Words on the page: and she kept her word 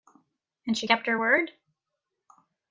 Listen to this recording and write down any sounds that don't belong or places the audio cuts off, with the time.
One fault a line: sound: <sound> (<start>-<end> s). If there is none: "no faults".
no faults